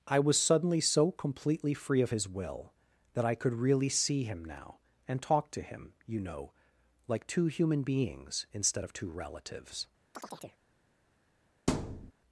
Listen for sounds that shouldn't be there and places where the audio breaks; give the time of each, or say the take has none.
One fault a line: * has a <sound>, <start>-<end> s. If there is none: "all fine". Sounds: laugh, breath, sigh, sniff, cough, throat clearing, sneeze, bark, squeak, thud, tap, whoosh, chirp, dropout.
* has a chirp, 10.1-10.6 s
* has a thud, 11.7-12.1 s